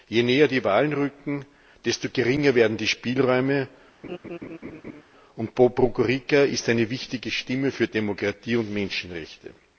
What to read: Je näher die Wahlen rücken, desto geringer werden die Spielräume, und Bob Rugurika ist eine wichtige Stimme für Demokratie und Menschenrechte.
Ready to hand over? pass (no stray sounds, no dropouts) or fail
fail